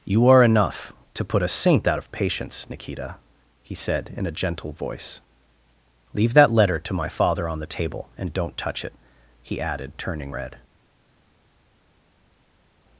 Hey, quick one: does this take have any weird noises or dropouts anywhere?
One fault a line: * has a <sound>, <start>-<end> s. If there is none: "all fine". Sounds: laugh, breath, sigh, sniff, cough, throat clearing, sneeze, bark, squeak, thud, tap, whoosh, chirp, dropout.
all fine